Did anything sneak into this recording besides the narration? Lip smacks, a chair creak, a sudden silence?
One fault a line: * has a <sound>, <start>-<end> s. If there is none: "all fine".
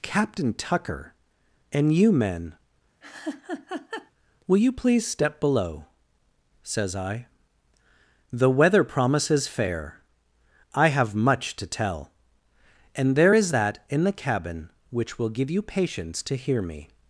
* has a laugh, 3.0-4.1 s